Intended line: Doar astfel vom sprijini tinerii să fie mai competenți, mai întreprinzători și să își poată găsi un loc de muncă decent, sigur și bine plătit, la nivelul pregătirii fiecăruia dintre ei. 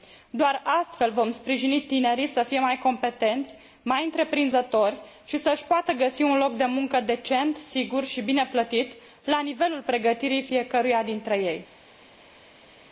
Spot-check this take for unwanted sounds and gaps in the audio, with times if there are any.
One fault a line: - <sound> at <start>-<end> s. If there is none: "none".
none